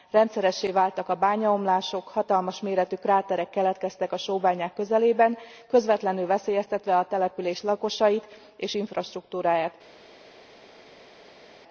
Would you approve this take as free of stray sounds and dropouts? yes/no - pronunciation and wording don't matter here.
yes